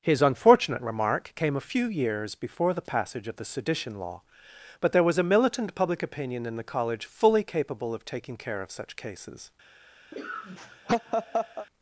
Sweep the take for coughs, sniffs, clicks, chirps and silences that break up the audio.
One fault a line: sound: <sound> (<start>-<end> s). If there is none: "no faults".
sound: laugh (10.1-11.7 s)